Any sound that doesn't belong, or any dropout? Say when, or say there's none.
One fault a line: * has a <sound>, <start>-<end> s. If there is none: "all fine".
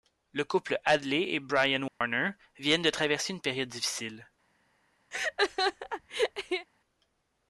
* has a dropout, 1.9-2.0 s
* has a laugh, 5.1-6.7 s